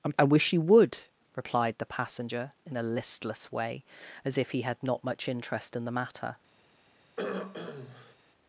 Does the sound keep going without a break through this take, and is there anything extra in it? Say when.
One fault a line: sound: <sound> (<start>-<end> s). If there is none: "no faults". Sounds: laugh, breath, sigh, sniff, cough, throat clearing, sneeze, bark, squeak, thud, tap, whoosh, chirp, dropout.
sound: throat clearing (7.2-8.2 s)